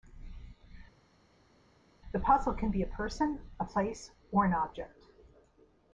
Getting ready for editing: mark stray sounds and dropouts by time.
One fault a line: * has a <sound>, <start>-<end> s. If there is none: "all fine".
all fine